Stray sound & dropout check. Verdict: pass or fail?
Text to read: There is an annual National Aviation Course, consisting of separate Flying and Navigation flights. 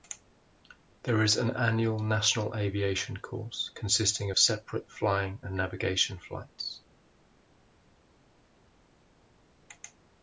pass